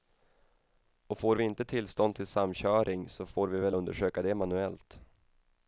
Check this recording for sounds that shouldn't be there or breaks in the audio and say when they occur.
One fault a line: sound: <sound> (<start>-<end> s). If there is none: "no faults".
no faults